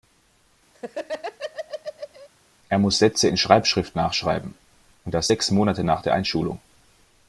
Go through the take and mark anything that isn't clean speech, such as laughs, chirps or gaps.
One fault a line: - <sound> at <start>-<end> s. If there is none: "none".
- laugh at 0.7-2.3 s